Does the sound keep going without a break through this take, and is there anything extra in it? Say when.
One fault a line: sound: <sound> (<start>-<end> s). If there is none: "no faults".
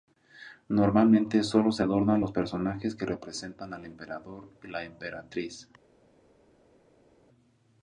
no faults